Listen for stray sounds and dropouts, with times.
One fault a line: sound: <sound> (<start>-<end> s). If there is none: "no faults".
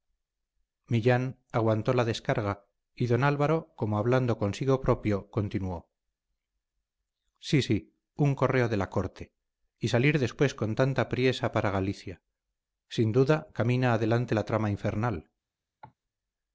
sound: cough (15.8-15.9 s)